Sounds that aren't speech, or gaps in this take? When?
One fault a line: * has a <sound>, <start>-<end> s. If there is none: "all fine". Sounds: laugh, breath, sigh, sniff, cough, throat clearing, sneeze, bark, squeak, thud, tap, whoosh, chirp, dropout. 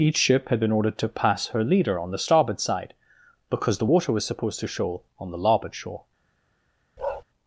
* has a bark, 7.0-7.2 s